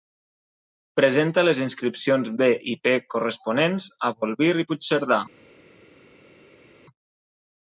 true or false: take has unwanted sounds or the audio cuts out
false